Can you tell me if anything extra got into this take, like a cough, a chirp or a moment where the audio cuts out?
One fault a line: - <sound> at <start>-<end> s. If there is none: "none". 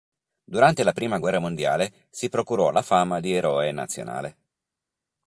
none